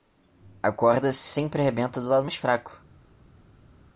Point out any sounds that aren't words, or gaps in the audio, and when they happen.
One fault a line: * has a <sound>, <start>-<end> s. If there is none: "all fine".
all fine